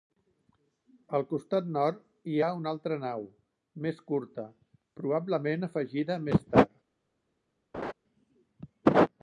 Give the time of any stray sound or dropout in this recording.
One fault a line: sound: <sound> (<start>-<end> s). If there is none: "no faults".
sound: laugh (7.7-7.9 s)